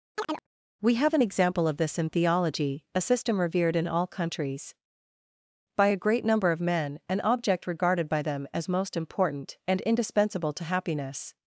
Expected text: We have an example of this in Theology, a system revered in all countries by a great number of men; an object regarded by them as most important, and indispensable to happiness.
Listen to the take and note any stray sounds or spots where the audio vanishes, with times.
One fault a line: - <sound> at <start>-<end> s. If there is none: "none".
- chirp at 0.1-0.5 s